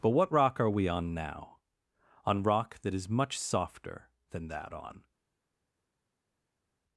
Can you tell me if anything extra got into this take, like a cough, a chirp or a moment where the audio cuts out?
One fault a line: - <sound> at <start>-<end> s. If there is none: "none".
none